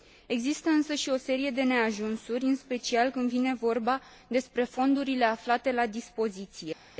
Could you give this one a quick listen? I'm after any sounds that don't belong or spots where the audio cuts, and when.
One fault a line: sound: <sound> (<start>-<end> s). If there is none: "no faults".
no faults